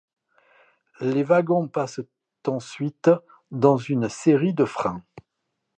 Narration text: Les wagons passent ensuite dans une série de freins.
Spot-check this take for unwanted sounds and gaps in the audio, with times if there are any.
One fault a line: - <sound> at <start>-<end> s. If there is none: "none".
none